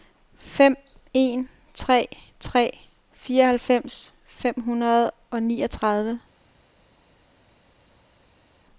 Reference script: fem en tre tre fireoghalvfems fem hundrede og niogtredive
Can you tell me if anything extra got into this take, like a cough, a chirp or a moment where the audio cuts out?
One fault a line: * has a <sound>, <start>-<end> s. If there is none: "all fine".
all fine